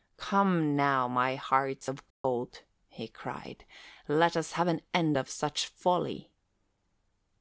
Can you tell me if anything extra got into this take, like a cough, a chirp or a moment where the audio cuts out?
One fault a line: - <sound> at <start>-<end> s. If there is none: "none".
- dropout at 2.1-2.2 s